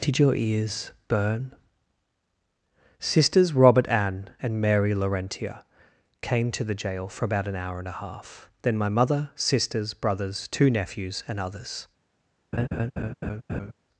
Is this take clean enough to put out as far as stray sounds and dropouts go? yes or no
no